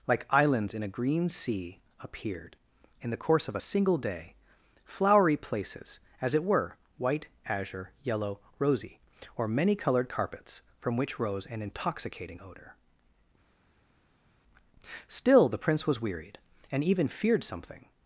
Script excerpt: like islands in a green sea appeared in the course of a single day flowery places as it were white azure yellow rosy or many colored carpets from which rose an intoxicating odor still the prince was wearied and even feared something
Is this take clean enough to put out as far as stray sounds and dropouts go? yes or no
yes